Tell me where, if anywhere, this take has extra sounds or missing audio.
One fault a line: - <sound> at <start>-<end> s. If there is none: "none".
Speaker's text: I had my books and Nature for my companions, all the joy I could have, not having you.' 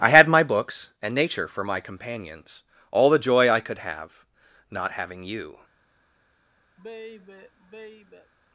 - sigh at 6.8-8.3 s